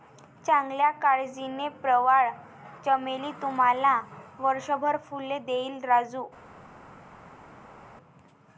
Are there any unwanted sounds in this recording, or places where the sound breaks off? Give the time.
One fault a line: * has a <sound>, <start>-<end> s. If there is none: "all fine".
all fine